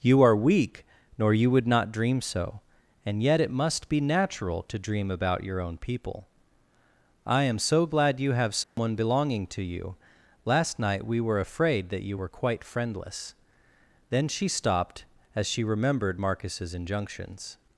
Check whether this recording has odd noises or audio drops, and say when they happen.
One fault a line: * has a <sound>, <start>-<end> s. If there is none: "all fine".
* has a dropout, 8.6-8.8 s